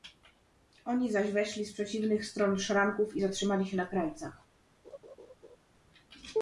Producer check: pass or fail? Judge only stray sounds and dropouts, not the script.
fail